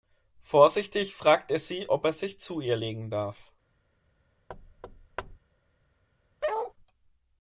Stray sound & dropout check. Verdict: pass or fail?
fail